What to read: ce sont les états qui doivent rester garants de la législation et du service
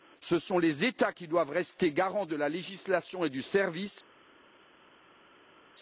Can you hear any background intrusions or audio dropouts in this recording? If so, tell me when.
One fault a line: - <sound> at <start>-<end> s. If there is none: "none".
none